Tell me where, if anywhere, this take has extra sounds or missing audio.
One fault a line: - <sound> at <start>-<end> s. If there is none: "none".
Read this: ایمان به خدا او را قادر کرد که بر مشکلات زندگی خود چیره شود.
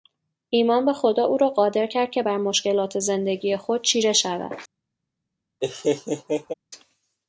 - laugh at 5.6-6.5 s